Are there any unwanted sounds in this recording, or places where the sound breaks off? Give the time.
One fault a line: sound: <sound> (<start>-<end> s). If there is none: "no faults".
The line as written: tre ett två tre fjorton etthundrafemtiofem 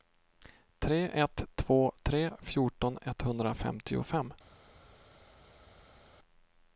no faults